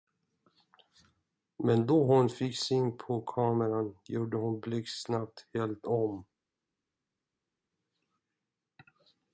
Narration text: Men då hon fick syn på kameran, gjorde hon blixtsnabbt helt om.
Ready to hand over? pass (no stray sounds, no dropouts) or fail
pass